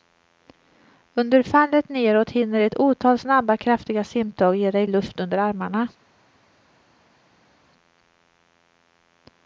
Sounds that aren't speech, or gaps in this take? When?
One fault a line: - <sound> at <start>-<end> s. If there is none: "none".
none